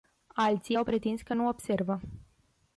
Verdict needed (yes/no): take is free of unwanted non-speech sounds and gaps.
yes